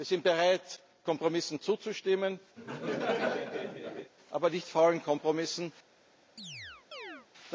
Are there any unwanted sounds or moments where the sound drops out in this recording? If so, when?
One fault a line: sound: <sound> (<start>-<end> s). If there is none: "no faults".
sound: laugh (2.6-4.1 s)
sound: chirp (6.4-7.3 s)